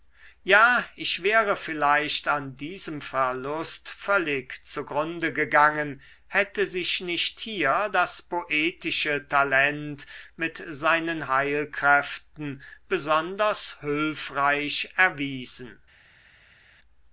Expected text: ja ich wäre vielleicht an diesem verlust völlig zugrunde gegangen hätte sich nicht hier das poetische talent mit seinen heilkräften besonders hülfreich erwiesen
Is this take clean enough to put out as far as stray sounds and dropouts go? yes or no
yes